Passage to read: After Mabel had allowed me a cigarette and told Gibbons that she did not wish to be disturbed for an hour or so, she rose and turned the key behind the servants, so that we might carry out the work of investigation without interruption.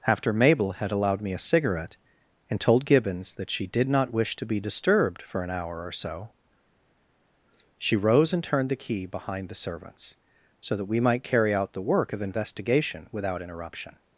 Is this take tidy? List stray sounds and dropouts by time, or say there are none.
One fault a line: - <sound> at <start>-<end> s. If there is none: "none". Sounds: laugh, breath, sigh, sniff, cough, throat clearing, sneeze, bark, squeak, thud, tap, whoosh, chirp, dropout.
none